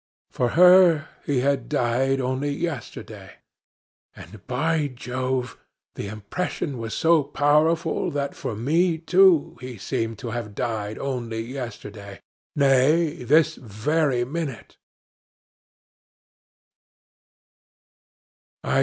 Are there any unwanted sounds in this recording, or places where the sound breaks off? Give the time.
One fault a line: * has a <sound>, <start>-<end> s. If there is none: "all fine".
all fine